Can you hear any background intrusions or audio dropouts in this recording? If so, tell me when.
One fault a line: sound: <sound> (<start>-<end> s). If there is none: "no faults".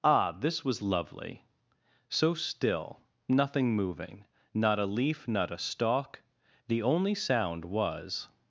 no faults